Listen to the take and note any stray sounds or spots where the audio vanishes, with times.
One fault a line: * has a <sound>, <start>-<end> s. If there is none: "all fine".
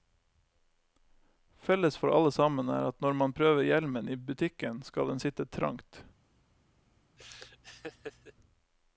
* has a laugh, 7.2-8.3 s